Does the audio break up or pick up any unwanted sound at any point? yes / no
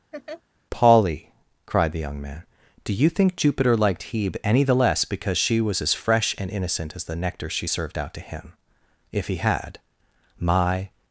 yes